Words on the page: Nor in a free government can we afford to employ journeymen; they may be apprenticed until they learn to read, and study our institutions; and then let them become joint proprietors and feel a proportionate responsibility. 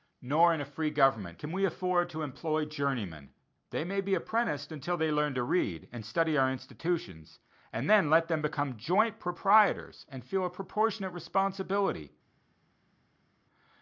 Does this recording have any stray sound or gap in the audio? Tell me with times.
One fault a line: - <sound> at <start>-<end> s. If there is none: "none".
none